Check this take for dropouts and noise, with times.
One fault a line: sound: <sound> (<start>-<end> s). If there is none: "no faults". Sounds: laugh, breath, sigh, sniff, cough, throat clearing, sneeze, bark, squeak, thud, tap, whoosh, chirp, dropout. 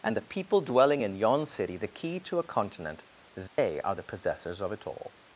sound: dropout (3.5-3.6 s)